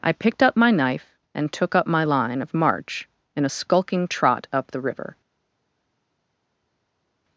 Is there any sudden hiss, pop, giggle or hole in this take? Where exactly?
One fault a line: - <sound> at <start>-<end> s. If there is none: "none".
none